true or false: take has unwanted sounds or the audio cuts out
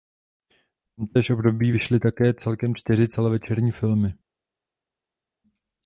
false